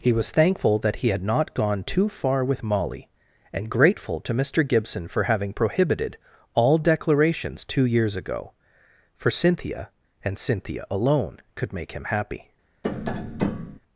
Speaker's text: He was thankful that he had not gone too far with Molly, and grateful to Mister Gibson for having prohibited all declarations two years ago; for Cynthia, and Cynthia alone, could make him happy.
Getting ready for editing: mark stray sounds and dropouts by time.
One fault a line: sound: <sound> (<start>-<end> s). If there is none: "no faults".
sound: tap (12.8-13.8 s)